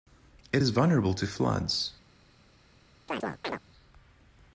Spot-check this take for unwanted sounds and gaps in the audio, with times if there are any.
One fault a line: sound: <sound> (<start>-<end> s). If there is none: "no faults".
sound: chirp (3.1-3.6 s)